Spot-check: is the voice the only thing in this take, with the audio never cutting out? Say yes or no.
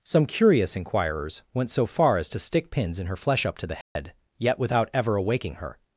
no